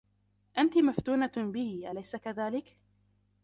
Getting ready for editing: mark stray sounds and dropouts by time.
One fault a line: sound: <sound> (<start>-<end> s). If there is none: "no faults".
no faults